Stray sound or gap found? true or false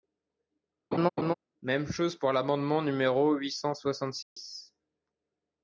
true